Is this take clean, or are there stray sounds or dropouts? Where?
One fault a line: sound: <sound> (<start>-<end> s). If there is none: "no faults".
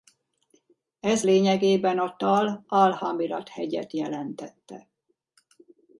no faults